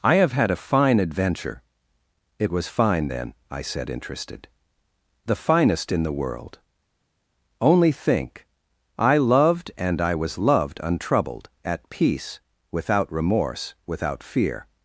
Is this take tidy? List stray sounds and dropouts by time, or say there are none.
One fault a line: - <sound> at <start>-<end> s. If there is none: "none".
none